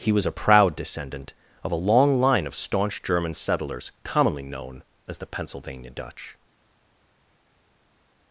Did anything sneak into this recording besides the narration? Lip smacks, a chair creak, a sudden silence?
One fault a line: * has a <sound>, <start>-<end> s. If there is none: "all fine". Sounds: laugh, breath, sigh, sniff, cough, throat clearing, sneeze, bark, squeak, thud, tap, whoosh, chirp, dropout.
all fine